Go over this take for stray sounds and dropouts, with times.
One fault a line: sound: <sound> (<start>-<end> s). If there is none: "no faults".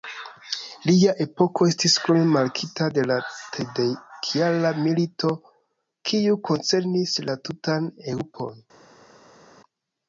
no faults